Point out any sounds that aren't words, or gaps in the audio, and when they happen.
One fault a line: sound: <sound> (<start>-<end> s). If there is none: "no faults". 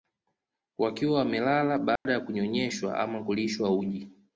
sound: dropout (2.0-2.1 s)